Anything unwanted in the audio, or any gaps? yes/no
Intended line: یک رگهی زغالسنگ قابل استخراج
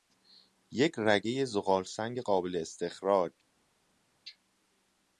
no